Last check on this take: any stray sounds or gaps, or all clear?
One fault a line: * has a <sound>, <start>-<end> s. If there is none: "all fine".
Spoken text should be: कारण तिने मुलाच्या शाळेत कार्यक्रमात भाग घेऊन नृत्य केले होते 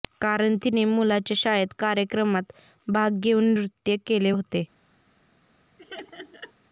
* has a laugh, 5.8-6.5 s